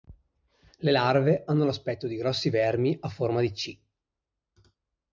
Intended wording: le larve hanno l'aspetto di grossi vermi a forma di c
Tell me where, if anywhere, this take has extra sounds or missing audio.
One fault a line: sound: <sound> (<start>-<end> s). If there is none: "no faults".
no faults